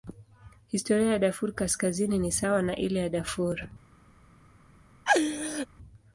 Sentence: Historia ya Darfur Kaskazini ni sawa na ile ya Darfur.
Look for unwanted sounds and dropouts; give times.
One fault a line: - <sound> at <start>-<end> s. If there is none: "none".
- laugh at 5.1-5.7 s